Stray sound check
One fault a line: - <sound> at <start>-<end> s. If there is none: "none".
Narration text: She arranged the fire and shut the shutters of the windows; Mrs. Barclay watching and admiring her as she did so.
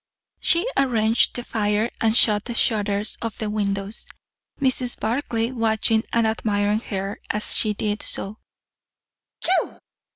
- sneeze at 9.4-9.8 s